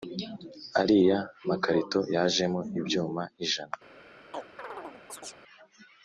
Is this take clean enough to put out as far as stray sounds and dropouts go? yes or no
no